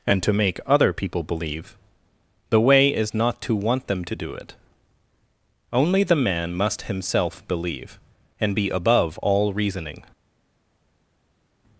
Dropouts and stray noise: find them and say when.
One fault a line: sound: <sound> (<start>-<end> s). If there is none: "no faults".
no faults